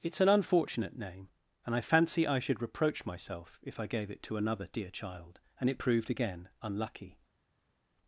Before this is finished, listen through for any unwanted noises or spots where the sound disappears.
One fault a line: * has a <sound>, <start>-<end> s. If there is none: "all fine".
all fine